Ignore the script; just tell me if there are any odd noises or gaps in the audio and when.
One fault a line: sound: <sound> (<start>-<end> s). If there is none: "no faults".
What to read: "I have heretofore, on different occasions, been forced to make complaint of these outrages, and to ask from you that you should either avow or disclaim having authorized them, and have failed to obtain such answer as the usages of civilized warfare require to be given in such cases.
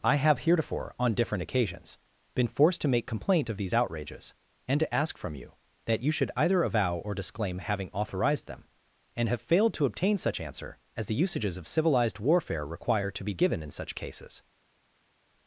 no faults